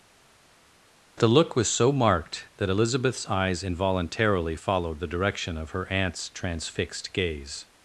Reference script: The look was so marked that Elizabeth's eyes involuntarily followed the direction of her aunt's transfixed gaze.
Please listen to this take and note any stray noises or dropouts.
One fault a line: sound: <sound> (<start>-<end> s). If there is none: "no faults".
no faults